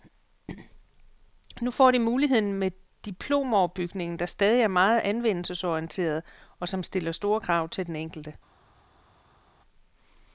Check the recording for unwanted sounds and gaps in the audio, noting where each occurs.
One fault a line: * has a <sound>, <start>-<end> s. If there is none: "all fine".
all fine